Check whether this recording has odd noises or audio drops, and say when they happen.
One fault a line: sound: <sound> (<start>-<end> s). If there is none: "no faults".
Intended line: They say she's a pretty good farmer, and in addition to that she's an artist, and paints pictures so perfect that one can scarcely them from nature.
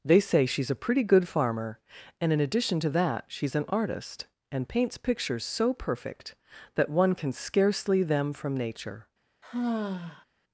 sound: sigh (9.4-10.2 s)